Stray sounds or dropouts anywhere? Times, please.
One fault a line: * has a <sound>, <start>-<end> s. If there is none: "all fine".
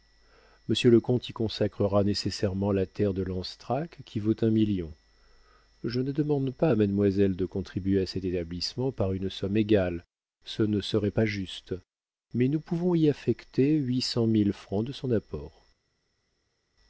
all fine